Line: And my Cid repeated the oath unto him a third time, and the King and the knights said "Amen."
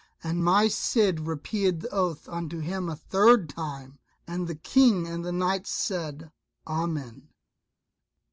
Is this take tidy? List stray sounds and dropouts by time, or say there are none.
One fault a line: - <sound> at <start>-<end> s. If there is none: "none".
none